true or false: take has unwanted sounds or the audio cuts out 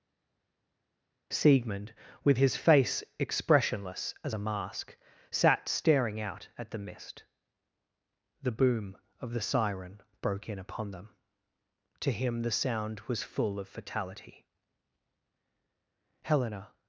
false